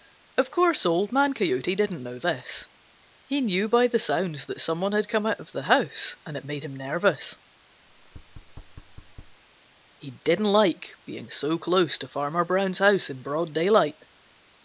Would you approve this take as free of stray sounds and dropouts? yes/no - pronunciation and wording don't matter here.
no